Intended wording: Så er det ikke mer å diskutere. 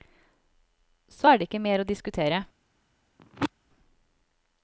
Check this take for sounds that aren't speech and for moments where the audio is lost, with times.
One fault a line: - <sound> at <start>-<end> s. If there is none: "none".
- throat clearing at 3.2-3.5 s